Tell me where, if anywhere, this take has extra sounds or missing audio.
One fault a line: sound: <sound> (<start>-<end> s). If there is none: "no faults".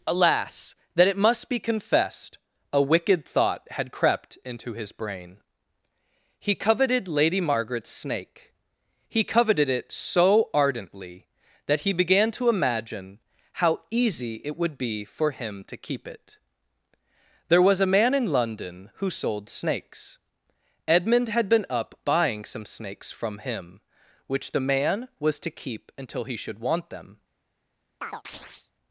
sound: chirp (28.0-28.7 s)